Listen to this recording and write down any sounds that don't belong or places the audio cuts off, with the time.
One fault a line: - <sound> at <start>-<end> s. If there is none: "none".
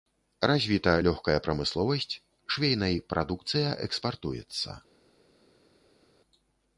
none